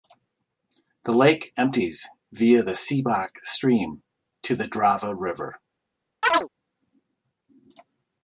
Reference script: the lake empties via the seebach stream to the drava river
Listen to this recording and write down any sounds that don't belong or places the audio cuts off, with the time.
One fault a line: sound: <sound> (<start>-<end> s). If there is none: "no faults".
sound: chirp (6.2-6.5 s)